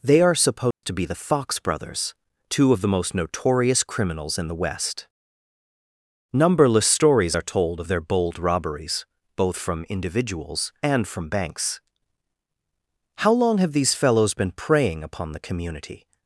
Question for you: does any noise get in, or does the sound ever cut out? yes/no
yes